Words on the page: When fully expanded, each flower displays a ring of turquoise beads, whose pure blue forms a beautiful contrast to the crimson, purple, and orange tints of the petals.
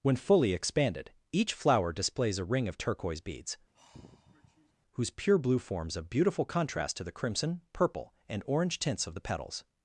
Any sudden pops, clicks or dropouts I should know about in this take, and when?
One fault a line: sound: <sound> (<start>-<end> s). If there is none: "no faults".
sound: sigh (3.7-4.7 s)